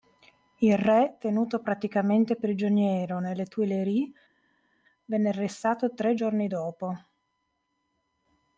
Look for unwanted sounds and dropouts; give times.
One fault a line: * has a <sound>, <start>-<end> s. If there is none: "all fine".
all fine